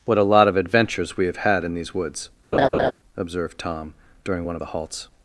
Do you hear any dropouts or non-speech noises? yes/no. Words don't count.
yes